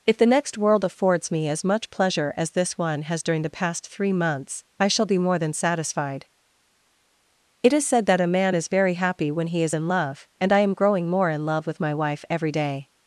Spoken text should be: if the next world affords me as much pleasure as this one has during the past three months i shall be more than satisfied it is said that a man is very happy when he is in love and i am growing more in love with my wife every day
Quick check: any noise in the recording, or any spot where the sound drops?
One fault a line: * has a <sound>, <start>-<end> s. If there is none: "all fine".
all fine